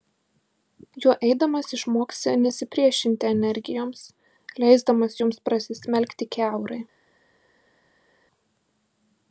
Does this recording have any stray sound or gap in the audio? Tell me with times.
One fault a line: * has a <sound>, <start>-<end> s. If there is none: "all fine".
all fine